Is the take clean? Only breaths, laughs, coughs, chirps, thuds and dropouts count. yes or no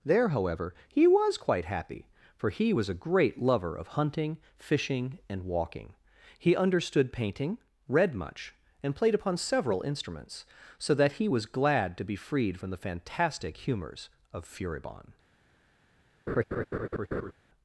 no